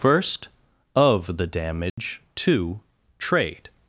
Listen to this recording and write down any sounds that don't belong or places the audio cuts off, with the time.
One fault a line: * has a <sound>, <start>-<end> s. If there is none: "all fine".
* has a dropout, 1.9-2.0 s